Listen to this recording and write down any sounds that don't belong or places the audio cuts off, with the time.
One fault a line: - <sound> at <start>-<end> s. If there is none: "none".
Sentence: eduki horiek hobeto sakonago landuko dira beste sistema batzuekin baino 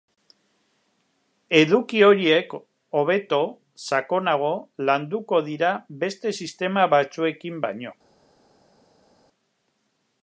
none